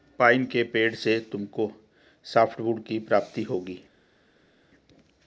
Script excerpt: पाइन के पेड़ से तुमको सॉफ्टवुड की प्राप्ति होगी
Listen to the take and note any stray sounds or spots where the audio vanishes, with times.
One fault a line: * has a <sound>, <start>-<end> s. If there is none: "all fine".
all fine